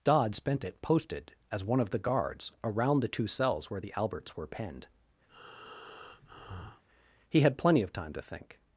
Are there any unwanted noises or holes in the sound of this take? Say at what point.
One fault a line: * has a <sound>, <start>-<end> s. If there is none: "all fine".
* has a breath, 5.3-6.8 s